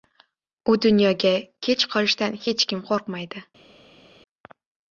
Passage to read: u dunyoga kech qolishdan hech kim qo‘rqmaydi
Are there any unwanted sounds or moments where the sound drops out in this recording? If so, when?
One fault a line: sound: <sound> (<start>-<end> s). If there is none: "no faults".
no faults